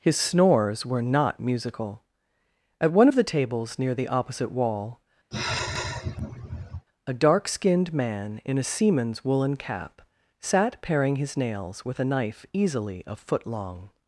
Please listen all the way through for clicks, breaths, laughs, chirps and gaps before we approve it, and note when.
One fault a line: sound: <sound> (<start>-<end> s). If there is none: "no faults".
sound: sigh (5.3-6.9 s)